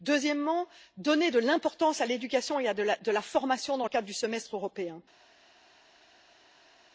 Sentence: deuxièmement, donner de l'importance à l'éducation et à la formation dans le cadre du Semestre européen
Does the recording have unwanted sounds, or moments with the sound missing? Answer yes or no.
no